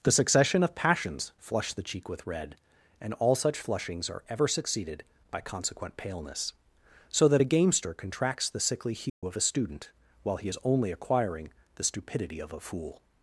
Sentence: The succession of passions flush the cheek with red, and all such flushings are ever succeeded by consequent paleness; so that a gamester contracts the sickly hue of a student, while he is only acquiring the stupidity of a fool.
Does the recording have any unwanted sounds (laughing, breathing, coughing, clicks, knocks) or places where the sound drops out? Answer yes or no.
yes